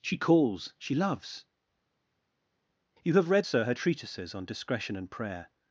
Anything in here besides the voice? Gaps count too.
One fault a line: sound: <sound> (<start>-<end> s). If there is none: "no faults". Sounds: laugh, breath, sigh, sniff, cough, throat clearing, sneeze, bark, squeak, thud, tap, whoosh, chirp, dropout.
no faults